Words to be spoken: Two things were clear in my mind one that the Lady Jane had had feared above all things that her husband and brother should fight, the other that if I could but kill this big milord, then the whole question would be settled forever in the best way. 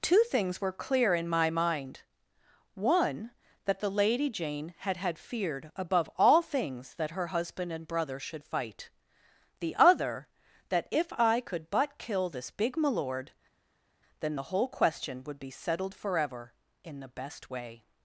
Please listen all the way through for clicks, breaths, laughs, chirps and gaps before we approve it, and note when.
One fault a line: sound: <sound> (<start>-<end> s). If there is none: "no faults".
no faults